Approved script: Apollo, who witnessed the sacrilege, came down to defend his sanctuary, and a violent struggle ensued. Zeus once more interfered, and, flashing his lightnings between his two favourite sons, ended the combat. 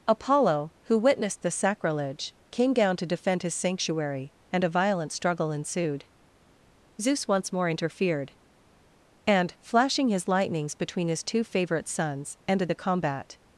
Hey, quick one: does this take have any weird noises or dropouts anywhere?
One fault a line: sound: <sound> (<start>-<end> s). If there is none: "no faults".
no faults